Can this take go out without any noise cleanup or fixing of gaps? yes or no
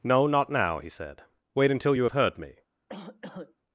no